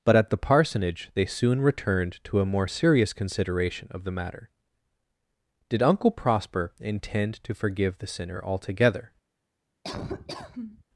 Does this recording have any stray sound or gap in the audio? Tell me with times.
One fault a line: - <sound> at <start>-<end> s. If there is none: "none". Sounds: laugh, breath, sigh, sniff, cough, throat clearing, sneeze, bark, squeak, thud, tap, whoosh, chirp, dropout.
- laugh at 9.8-10.8 s